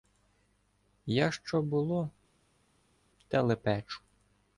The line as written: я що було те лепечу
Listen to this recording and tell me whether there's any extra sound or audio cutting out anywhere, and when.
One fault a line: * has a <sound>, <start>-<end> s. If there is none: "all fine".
all fine